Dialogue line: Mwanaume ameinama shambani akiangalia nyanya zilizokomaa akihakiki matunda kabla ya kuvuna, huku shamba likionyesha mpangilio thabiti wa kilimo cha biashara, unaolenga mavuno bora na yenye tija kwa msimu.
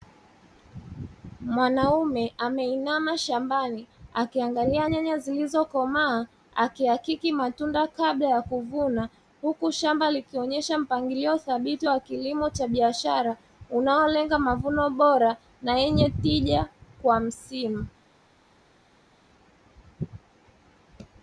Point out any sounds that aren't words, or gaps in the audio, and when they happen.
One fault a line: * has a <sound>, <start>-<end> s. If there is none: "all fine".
all fine